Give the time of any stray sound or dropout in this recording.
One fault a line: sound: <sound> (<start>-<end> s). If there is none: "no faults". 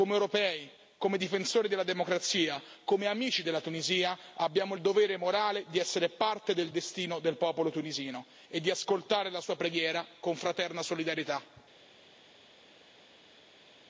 no faults